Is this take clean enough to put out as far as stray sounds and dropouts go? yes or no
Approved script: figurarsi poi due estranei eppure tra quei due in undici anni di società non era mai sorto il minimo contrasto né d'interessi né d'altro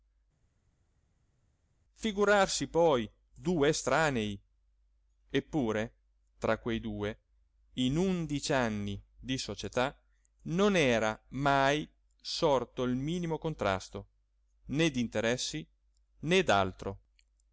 yes